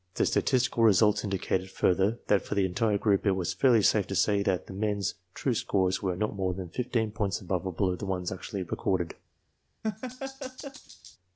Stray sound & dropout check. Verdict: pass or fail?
fail